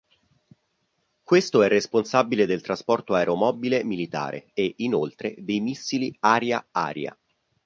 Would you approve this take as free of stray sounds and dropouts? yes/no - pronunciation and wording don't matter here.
yes